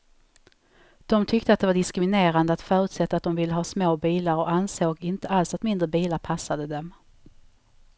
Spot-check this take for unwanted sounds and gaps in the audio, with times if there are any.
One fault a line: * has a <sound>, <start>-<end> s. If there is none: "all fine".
all fine